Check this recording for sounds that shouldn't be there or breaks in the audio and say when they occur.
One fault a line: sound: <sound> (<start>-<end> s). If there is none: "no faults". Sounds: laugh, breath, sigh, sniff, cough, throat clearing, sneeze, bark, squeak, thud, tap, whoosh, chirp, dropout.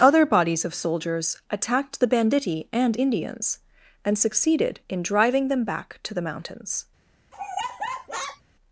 sound: laugh (7.3-8.4 s)